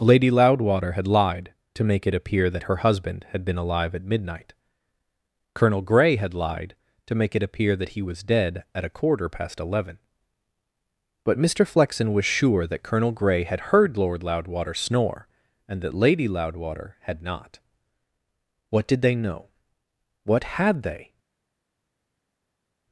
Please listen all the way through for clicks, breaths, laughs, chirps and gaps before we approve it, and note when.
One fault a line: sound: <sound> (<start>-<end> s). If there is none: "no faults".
no faults